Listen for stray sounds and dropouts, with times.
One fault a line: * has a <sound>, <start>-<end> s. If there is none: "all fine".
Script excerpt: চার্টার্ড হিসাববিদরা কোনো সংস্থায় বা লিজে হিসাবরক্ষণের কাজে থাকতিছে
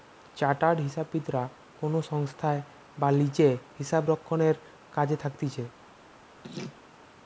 * has a laugh, 6.4-6.8 s